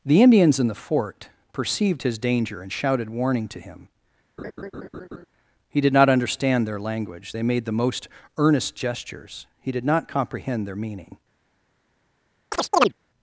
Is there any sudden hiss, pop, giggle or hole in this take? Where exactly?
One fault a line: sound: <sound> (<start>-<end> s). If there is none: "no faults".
sound: laugh (4.4-5.3 s)
sound: chirp (12.5-12.9 s)